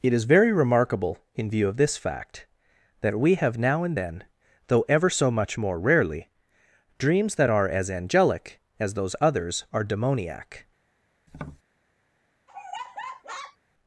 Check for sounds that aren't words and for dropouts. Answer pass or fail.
fail